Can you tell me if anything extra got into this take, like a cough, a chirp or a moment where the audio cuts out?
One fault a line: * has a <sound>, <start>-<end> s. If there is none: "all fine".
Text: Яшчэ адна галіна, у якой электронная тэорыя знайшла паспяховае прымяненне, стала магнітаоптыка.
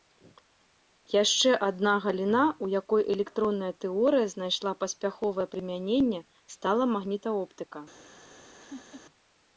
* has a laugh, 8.6-9.0 s